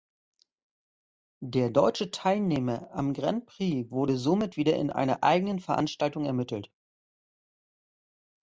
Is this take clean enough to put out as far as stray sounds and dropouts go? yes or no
yes